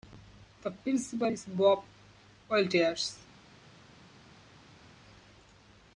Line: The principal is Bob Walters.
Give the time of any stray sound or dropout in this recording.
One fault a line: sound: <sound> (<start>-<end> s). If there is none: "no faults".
no faults